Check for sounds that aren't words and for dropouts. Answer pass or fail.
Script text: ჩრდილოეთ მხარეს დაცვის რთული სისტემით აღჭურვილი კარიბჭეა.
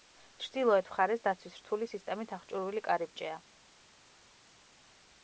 pass